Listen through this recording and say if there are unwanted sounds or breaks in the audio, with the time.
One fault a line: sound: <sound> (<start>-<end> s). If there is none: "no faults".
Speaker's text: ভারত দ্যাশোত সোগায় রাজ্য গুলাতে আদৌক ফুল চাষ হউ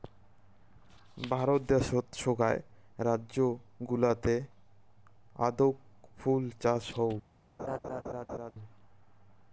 sound: laugh (7.6-8.5 s)